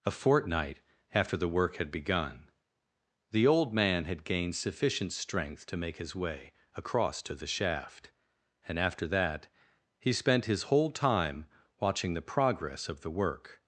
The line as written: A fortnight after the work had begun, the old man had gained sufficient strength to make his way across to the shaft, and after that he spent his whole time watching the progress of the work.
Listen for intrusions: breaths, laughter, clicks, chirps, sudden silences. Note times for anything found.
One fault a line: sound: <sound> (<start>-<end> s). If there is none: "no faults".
no faults